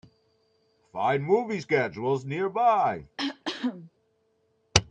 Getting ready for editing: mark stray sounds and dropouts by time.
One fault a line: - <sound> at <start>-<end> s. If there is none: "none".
- cough at 3.2-3.9 s